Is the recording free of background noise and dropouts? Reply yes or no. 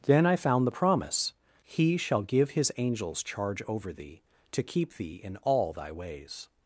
yes